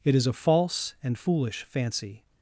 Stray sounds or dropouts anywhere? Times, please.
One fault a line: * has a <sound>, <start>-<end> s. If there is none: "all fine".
all fine